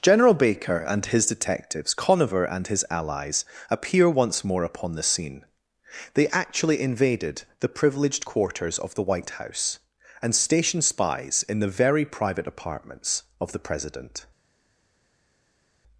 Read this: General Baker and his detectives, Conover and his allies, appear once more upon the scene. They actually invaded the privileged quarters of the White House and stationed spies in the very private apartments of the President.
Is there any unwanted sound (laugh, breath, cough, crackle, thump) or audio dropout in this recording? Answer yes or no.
no